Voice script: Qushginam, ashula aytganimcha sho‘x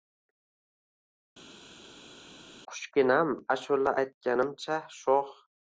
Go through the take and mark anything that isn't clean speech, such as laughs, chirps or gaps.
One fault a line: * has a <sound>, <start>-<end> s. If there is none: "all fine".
all fine